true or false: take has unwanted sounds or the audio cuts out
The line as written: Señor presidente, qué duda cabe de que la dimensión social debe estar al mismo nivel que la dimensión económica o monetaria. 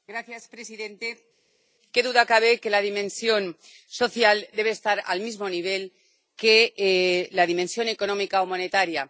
false